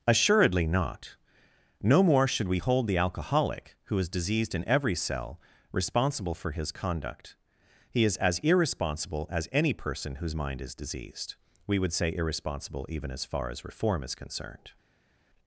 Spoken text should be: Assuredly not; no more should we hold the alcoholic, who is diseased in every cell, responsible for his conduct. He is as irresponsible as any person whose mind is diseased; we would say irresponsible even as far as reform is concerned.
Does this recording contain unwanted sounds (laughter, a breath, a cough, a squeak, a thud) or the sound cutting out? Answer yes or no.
no